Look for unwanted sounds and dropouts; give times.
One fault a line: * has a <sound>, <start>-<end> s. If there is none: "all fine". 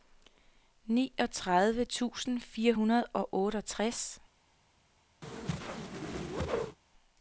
* has a whoosh, 5.2-6.8 s